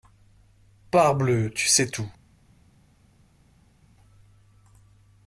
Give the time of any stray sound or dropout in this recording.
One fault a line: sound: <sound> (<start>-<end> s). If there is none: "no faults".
no faults